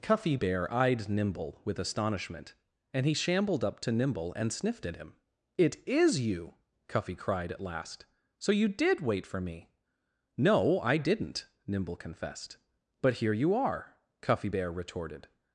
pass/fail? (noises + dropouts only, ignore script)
pass